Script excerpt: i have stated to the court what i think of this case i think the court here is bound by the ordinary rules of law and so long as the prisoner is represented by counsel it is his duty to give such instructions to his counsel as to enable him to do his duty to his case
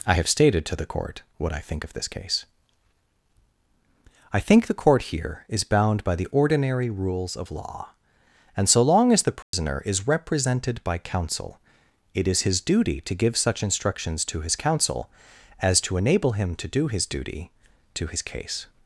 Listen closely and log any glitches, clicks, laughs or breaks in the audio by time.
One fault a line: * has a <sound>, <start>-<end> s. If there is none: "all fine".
* has a dropout, 9.4-9.5 s